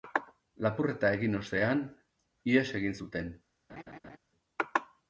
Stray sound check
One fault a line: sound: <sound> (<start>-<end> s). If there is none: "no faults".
sound: laugh (3.7-4.2 s)